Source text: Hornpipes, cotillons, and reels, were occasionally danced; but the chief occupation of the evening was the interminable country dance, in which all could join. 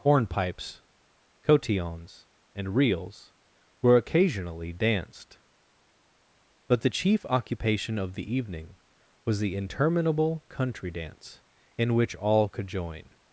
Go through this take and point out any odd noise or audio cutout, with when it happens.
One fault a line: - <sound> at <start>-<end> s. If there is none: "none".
none